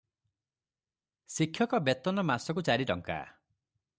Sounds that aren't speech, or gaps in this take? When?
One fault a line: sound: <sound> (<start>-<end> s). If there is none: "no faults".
no faults